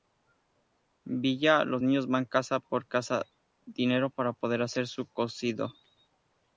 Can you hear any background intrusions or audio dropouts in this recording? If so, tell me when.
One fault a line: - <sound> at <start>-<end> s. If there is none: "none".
none